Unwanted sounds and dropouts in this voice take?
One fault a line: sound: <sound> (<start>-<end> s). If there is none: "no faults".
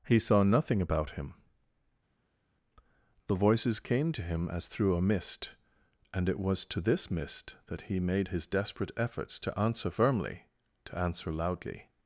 no faults